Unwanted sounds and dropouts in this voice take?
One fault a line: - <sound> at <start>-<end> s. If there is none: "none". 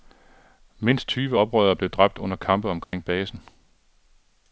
- dropout at 2.8-2.9 s